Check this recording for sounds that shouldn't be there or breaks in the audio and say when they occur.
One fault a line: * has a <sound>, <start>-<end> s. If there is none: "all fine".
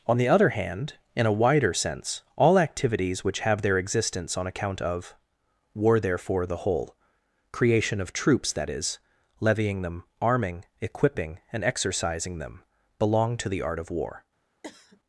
* has a cough, 14.6-15.0 s